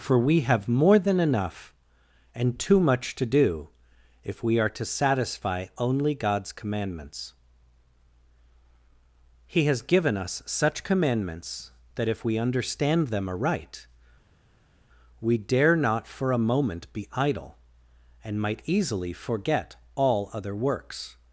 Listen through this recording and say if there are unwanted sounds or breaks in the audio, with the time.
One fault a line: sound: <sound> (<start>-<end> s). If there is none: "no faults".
no faults